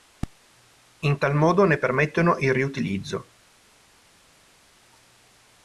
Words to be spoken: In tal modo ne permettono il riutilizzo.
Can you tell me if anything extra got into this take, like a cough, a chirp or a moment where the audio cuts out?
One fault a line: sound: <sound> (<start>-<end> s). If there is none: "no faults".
no faults